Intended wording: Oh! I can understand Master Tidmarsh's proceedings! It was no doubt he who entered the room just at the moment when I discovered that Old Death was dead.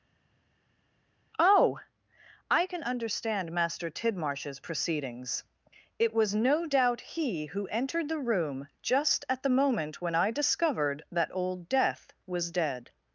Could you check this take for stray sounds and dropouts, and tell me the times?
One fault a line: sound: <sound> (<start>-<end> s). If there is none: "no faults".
no faults